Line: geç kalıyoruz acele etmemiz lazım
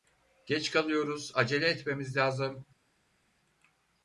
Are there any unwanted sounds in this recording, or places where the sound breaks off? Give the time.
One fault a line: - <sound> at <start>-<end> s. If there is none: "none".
none